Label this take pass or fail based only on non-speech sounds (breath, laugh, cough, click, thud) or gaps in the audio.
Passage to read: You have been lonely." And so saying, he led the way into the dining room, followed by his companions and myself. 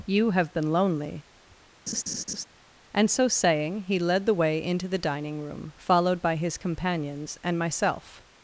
fail